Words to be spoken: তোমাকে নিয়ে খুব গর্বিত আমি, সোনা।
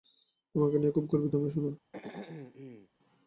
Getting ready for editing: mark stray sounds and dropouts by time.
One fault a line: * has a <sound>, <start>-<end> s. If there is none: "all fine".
* has a throat clearing, 1.9-2.9 s